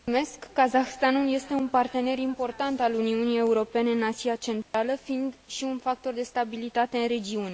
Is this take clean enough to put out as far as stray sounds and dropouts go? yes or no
no